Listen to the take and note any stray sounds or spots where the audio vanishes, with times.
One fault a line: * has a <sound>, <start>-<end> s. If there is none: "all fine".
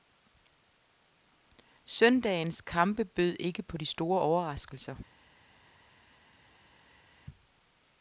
all fine